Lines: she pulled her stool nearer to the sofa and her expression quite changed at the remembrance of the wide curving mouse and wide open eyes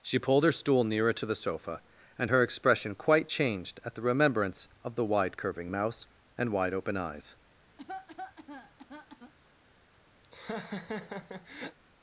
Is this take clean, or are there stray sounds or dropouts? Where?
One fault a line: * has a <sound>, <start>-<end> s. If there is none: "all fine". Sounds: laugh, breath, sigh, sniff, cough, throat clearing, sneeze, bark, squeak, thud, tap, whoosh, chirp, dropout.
* has a cough, 7.8-9.3 s
* has a laugh, 10.2-11.8 s